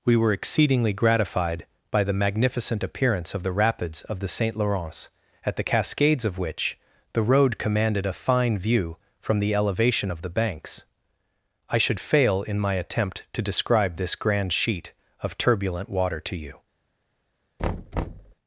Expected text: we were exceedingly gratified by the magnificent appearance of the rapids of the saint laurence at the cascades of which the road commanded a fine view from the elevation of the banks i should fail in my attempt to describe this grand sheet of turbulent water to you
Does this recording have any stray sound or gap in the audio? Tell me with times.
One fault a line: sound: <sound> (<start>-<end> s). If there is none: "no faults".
sound: thud (17.6-18.3 s)